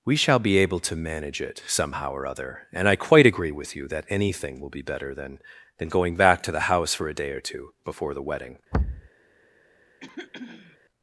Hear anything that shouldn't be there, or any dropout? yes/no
yes